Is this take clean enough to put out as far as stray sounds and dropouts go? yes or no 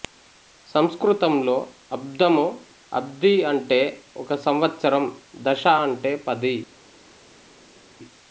yes